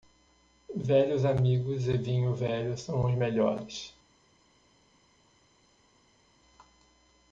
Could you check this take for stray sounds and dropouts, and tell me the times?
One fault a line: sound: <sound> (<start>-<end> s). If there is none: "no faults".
no faults